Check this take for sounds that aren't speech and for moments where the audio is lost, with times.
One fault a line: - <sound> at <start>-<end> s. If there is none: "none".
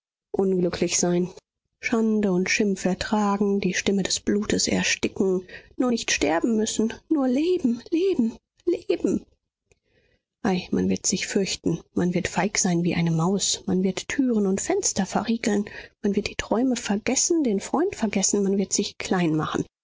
none